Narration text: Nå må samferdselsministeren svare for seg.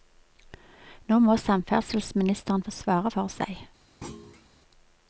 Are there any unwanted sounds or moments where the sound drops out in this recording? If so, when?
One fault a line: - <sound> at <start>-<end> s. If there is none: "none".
- thud at 4.0-4.5 s